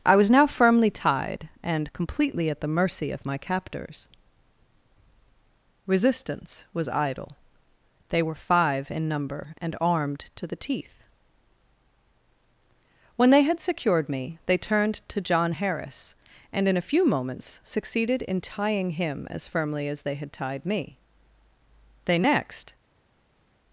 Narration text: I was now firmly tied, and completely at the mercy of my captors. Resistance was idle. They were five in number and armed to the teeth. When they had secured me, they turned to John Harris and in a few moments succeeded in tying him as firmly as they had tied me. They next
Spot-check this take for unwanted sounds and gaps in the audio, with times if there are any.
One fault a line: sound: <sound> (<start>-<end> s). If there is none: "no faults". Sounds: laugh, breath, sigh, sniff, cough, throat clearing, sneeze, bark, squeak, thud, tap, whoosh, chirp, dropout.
no faults